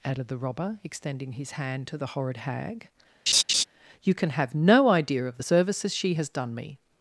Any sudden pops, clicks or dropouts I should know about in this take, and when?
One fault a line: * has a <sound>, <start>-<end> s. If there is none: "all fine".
* has a laugh, 3.3-3.6 s